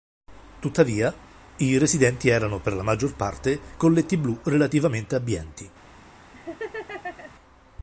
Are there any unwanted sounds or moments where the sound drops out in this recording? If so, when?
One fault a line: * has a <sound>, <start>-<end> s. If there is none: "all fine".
* has a laugh, 6.3-7.3 s